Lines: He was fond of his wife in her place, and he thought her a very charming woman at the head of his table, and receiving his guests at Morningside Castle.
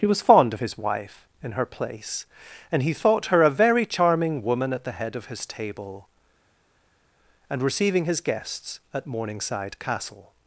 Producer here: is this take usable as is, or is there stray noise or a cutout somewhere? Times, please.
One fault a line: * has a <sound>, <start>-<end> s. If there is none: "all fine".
all fine